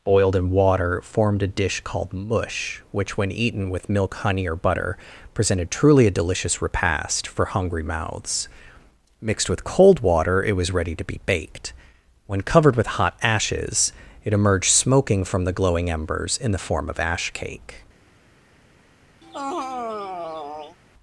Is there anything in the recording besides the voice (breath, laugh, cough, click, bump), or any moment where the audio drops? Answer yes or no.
yes